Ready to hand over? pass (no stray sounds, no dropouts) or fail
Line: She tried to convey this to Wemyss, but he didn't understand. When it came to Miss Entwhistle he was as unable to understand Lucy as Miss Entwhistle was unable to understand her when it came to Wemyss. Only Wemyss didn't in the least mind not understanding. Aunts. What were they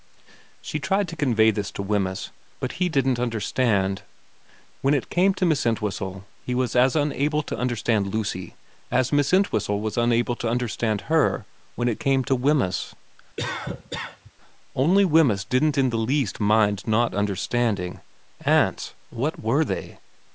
fail